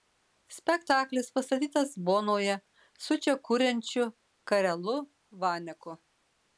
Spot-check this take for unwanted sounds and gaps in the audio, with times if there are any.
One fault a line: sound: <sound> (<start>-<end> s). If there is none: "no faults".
no faults